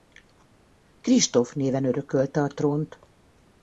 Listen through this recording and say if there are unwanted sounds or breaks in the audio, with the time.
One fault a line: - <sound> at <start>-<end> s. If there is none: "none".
none